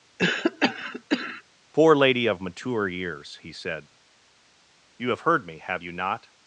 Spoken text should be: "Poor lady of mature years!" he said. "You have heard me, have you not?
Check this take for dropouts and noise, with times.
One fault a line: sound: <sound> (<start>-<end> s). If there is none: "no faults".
sound: cough (0.2-1.4 s)